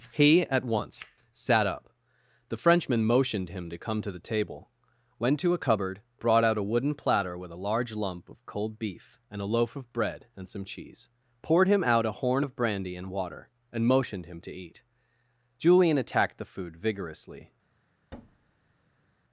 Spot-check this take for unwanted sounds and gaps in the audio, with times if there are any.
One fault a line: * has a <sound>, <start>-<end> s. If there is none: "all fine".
* has a thud, 18.1-19.1 s